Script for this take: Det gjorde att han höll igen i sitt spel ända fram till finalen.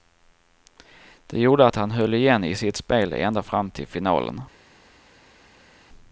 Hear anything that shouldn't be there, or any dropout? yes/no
no